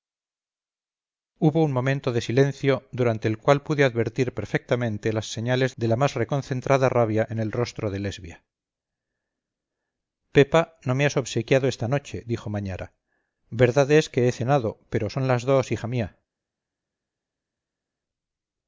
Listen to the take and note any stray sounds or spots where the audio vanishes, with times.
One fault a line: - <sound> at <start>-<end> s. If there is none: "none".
none